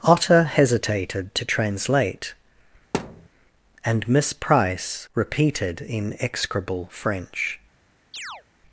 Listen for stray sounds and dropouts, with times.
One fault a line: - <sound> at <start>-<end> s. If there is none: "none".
- thud at 2.9-3.3 s
- chirp at 8.1-8.4 s